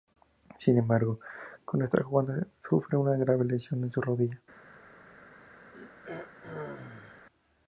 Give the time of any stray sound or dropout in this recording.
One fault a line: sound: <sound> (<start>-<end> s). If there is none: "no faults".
sound: throat clearing (5.7-7.3 s)